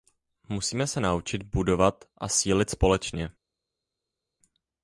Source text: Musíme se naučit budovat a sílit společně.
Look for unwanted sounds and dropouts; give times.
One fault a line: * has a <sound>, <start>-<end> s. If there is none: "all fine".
all fine